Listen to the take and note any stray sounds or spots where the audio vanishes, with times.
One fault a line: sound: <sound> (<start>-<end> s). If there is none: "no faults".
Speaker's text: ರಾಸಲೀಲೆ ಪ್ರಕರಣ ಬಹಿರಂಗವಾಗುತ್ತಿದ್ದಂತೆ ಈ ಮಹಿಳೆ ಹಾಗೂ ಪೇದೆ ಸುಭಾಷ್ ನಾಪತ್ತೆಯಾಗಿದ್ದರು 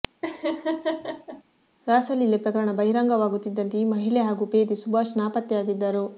sound: laugh (0.2-1.4 s)